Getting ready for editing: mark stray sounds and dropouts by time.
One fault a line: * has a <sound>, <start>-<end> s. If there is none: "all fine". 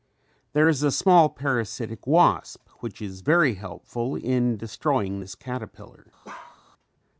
* has a bark, 6.2-6.6 s